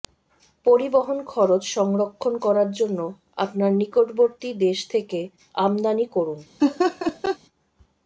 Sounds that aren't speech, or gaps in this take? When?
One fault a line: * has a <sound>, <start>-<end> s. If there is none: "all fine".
* has a laugh, 6.6-7.4 s